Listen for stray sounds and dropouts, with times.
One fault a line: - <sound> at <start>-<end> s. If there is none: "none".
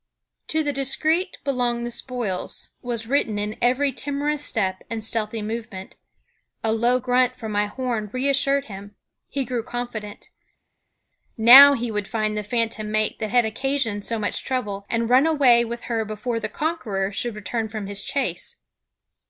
none